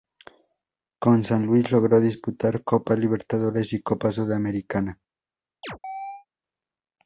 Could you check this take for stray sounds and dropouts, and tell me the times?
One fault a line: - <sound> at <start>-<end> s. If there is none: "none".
- chirp at 5.6-6.3 s